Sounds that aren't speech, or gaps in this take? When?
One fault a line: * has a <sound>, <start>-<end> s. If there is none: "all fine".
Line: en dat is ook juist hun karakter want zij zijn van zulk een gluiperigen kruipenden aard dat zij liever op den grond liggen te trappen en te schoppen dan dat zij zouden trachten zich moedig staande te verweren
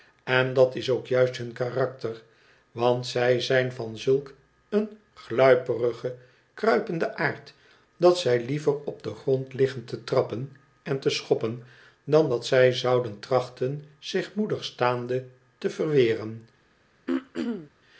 * has a throat clearing, 17.1-17.7 s